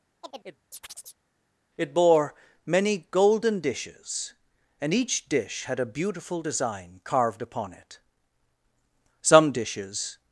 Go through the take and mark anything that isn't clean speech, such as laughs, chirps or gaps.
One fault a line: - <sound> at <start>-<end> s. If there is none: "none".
- chirp at 0.2-1.2 s